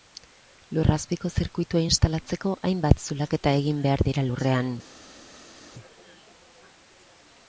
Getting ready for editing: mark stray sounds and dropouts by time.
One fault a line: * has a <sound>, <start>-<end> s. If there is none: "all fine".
all fine